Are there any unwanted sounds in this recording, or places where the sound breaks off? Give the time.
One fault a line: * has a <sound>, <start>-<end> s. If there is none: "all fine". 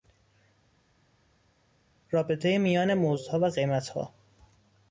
all fine